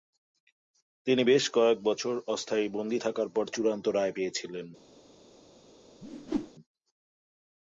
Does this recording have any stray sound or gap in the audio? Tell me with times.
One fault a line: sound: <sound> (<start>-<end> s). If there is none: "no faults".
sound: whoosh (6.0-6.5 s)